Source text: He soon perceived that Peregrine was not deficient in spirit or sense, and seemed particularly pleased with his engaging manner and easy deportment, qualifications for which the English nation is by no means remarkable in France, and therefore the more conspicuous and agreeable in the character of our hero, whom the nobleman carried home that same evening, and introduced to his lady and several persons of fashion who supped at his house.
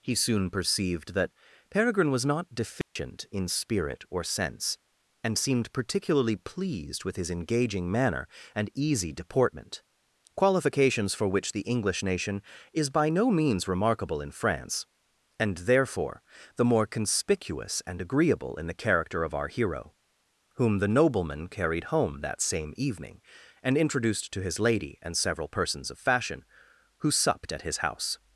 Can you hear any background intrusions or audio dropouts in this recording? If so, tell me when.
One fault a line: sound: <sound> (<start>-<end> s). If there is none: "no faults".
sound: dropout (2.8-3.0 s)